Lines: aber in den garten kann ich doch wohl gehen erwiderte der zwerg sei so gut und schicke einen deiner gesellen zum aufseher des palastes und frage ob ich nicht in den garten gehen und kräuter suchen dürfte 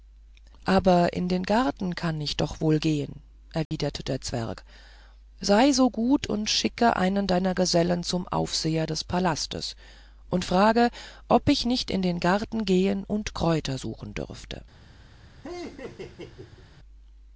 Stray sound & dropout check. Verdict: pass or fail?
fail